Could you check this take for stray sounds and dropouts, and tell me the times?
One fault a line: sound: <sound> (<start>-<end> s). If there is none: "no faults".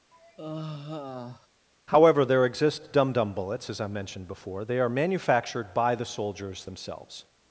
sound: sigh (0.1-1.5 s)